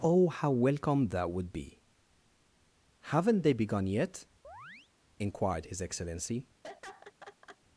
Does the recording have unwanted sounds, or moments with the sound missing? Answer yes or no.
yes